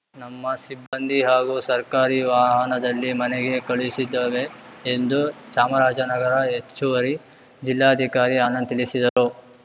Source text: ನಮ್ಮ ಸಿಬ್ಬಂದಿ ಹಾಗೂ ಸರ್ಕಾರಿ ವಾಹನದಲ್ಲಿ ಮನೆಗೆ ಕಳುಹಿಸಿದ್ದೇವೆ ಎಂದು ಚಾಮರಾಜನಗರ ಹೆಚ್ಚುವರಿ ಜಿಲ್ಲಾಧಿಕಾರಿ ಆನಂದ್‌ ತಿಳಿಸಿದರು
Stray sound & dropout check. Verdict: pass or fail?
fail